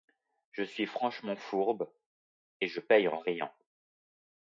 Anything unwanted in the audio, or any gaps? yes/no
no